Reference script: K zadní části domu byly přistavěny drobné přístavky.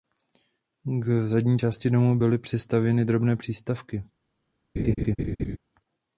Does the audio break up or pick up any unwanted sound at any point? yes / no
yes